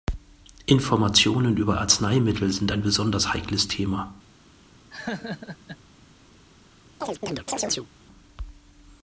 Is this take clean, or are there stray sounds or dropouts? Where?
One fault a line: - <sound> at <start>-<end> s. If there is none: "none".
- laugh at 4.9-5.8 s
- chirp at 7.0-7.9 s